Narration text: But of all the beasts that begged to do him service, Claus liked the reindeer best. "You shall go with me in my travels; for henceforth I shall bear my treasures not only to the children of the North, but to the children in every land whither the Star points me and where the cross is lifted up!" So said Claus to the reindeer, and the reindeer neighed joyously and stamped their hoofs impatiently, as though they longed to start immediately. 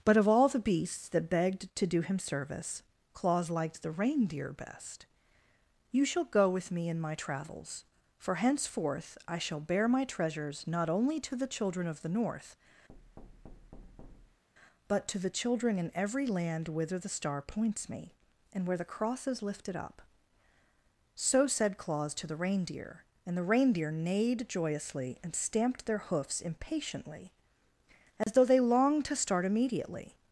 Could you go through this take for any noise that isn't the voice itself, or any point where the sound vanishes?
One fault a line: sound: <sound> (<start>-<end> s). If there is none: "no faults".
sound: thud (12.9-14.4 s)
sound: dropout (28.2-28.3 s)